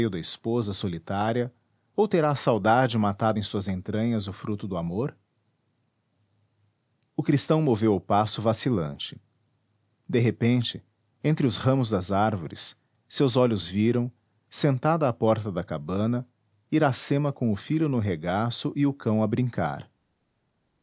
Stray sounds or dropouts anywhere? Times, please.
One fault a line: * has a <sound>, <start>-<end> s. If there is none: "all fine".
all fine